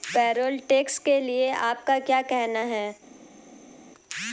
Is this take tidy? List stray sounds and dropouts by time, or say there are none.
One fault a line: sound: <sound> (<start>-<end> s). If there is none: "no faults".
no faults